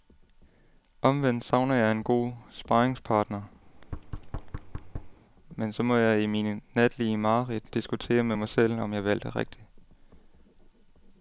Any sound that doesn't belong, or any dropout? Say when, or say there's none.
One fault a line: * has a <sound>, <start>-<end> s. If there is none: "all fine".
* has a thud, 3.6-5.2 s